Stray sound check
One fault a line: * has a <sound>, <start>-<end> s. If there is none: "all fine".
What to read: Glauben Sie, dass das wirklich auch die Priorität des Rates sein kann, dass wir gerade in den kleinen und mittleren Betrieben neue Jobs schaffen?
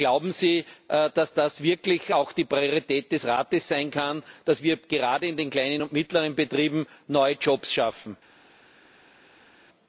all fine